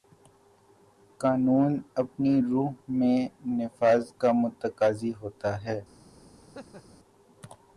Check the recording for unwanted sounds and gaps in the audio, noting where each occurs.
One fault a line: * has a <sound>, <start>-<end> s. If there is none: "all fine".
* has a laugh, 6.4-7.0 s